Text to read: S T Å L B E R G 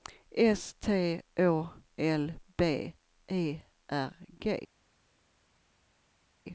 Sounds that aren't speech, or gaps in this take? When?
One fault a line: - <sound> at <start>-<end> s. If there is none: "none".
none